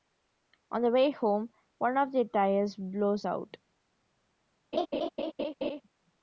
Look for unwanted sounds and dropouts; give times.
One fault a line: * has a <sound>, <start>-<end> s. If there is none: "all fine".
* has a laugh, 4.7-5.8 s